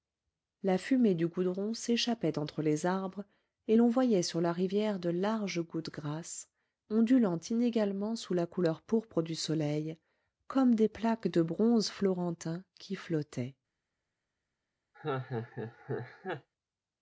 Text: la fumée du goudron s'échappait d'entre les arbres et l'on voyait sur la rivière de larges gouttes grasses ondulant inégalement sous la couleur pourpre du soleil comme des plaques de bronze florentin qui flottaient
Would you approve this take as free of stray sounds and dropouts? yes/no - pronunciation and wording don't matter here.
no